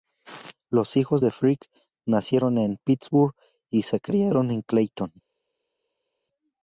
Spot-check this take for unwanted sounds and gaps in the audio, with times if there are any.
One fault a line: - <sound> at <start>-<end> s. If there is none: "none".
none